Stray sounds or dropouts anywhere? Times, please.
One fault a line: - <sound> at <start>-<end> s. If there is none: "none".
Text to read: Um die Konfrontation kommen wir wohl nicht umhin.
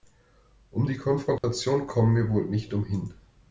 - dropout at 1.4-1.4 s